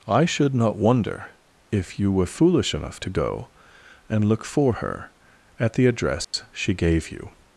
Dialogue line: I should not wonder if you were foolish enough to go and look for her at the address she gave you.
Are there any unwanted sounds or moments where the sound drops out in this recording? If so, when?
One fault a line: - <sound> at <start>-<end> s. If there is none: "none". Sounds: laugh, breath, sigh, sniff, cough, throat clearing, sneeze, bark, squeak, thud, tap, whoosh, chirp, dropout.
- dropout at 6.2-6.3 s